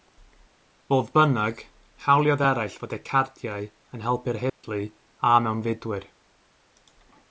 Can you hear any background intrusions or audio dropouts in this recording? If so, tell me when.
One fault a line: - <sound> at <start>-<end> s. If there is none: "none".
- dropout at 4.5-4.6 s